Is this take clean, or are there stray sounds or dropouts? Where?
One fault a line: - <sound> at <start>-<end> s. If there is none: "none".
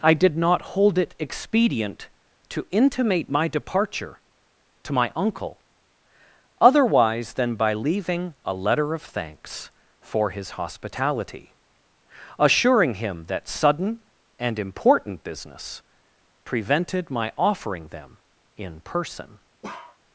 - bark at 19.6-20.0 s